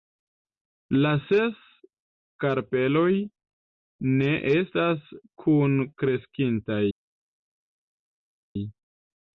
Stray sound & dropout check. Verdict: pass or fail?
pass